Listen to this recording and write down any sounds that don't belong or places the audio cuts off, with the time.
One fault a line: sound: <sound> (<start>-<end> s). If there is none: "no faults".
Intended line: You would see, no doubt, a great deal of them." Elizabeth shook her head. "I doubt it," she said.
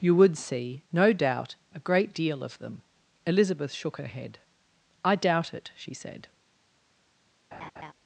sound: laugh (7.5-7.9 s)